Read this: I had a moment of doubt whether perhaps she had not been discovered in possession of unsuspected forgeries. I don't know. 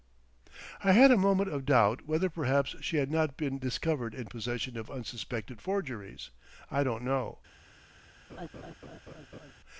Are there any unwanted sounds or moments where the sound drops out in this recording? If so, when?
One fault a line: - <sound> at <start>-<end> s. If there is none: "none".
- laugh at 8.3-9.5 s